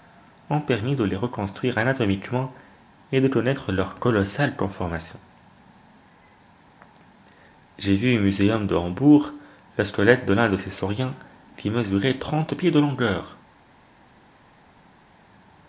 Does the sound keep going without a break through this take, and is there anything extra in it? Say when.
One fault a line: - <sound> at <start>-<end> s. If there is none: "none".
none